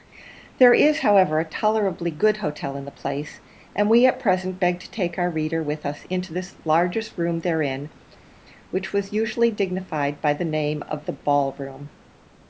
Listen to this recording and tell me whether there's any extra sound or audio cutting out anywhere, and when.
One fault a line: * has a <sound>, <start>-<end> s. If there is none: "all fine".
all fine